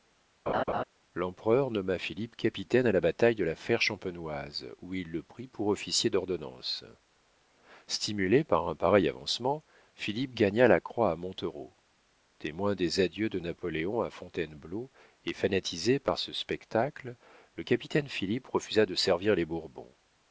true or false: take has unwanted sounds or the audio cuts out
true